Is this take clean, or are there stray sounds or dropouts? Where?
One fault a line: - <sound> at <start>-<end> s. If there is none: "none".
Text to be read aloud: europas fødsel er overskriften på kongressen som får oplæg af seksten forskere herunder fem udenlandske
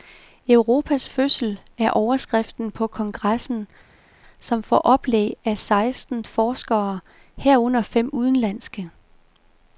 none